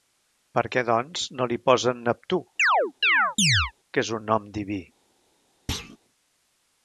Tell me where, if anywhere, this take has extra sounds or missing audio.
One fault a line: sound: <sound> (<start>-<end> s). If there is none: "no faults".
sound: chirp (2.6-3.7 s)
sound: thud (5.7-6.0 s)